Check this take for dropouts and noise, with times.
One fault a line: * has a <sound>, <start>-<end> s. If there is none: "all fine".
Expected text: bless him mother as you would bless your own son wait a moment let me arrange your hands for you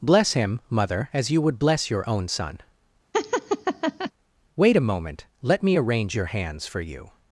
* has a laugh, 3.1-4.1 s